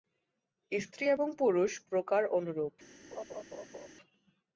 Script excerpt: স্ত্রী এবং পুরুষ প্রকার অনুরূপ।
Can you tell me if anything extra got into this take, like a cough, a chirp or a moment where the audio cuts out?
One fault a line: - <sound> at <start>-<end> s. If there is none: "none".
- laugh at 3.1-3.9 s